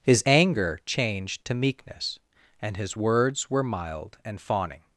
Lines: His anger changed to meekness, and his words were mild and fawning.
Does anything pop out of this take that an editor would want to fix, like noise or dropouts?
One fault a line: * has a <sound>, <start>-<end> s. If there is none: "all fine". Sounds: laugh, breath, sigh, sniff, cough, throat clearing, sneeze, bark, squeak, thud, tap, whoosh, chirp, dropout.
all fine